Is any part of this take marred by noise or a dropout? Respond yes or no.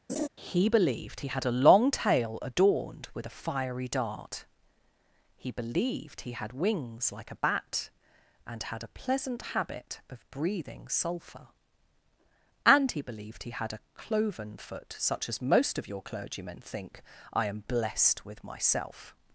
yes